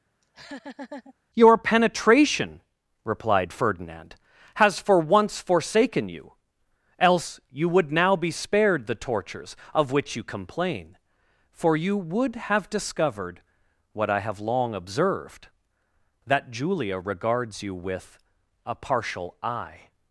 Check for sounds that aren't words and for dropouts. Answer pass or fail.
fail